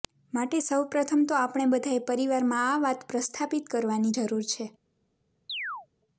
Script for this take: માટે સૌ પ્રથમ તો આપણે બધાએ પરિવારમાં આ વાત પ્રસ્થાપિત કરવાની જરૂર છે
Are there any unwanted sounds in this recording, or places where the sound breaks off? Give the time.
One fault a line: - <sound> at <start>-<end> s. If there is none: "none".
- chirp at 5.5-5.9 s